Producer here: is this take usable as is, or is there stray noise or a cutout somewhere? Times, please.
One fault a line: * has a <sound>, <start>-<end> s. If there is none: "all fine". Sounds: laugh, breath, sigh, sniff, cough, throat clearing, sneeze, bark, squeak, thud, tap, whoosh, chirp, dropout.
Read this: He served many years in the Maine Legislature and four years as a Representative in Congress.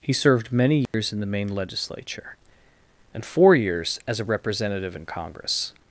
* has a dropout, 0.9-0.9 s